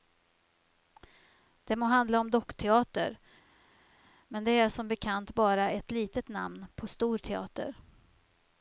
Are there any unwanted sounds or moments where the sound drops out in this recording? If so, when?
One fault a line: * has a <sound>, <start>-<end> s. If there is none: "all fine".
all fine